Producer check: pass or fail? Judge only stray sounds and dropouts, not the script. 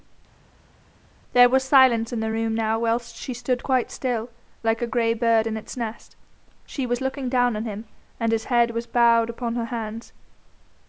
pass